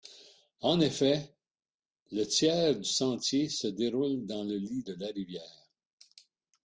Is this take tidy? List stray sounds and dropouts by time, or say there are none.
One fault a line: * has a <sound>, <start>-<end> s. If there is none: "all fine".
all fine